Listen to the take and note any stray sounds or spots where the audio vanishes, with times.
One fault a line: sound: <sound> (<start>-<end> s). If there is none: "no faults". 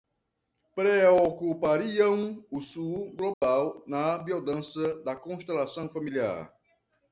sound: dropout (3.3-3.4 s)